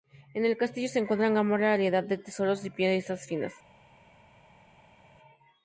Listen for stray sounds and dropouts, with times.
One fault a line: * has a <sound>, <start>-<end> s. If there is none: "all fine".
all fine